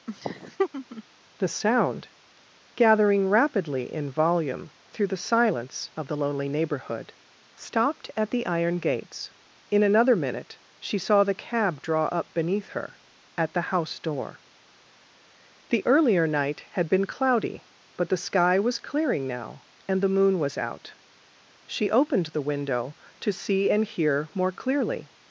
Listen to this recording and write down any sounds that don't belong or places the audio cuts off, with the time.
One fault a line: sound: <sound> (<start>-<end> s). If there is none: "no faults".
sound: laugh (0.1-1.0 s)